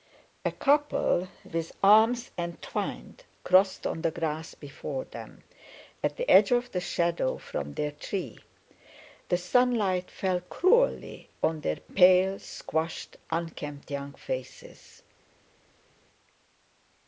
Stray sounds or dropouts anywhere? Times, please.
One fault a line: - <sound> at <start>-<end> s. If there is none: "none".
none